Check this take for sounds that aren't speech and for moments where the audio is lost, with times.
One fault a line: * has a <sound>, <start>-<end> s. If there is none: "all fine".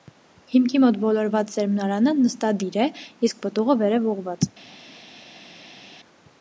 all fine